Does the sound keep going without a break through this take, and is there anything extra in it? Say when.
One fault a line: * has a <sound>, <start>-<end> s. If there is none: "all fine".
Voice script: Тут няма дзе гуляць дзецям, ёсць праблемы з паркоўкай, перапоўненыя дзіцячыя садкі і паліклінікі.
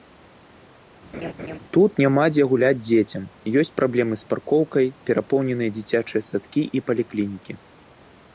* has a laugh, 1.1-1.6 s